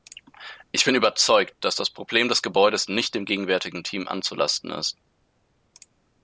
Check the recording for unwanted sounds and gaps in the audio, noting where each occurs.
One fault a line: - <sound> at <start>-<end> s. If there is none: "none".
none